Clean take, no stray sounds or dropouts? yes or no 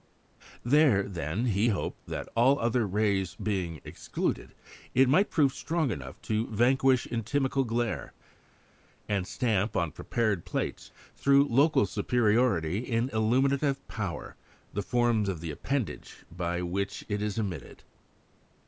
yes